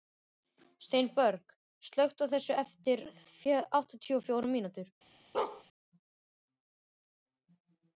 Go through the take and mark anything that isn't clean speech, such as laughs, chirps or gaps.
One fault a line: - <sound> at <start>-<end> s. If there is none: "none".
- bark at 5.3-5.6 s